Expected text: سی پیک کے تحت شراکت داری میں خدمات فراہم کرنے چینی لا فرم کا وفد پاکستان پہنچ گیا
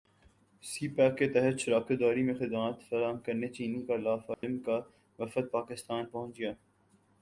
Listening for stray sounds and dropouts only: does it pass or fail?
fail